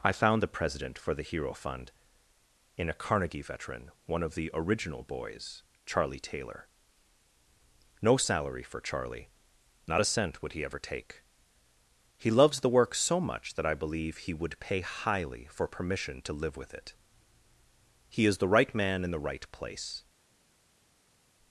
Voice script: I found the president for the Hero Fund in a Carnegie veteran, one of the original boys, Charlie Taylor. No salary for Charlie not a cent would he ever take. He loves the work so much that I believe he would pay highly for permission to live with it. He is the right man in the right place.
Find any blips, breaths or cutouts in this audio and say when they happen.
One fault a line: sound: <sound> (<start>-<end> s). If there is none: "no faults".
no faults